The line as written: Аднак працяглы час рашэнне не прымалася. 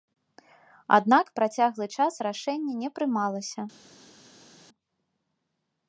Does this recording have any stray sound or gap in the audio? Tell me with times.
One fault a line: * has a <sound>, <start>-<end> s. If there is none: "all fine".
all fine